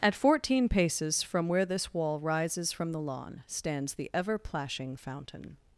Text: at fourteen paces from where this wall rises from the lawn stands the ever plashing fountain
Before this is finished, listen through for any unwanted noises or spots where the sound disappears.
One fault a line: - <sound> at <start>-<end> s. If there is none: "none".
none